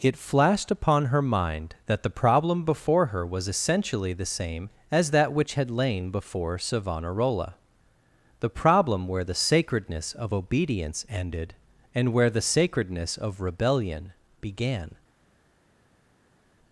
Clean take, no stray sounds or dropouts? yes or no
yes